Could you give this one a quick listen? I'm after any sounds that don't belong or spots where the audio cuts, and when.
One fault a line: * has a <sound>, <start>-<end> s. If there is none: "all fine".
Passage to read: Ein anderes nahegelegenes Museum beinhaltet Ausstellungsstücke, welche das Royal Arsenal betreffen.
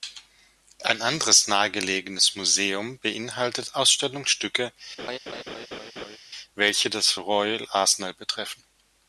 * has a laugh, 5.0-6.2 s